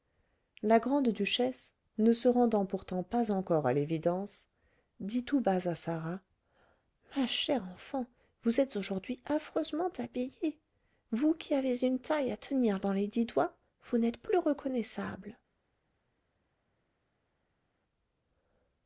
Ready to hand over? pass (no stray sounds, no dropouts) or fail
pass